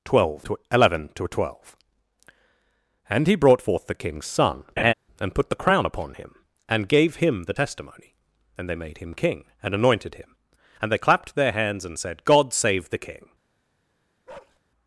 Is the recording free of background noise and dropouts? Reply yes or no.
no